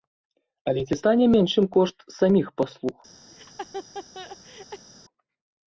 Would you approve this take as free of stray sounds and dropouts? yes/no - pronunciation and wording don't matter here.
no